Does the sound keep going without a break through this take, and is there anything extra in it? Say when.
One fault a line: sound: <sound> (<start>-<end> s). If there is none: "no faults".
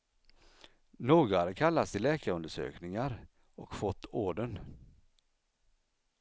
no faults